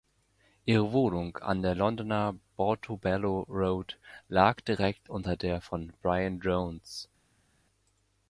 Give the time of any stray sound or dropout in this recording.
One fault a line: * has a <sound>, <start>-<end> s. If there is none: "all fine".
all fine